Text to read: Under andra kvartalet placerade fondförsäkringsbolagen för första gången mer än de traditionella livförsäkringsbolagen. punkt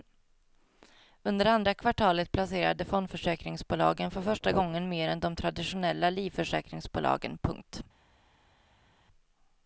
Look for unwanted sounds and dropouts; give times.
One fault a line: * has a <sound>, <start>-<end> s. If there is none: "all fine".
all fine